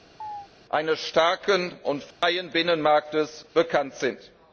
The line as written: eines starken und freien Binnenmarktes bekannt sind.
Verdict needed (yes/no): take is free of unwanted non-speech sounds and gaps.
no